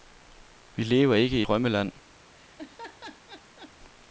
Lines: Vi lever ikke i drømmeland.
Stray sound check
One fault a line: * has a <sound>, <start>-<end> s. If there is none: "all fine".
* has a laugh, 2.3-3.7 s